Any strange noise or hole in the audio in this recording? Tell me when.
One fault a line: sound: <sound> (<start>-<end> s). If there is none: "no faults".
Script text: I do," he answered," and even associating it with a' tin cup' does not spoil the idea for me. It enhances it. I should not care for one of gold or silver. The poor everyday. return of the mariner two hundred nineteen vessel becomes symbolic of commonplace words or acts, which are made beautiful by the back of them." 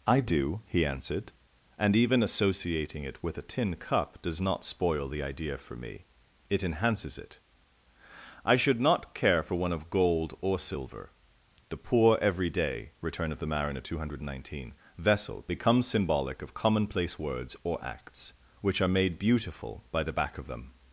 no faults